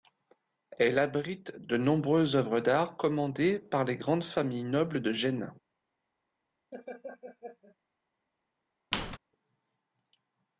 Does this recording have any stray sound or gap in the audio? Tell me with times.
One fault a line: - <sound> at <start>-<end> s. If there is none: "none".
- laugh at 6.7-7.8 s
- squeak at 8.9-9.2 s